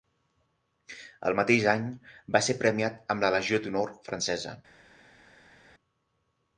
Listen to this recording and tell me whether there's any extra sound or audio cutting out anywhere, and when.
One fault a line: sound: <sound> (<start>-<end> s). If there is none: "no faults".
no faults